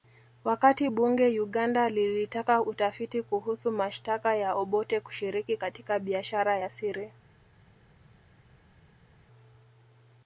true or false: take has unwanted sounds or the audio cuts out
false